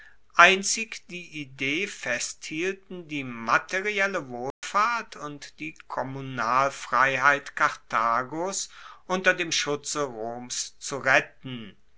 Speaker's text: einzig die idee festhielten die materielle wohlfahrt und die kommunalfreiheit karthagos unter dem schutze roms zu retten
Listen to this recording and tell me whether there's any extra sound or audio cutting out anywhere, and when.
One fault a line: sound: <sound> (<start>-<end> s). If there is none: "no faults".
sound: dropout (4.5-4.6 s)